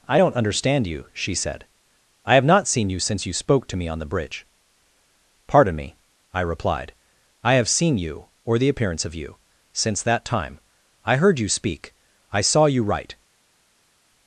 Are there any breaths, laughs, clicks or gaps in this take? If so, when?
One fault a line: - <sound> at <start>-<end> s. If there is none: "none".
none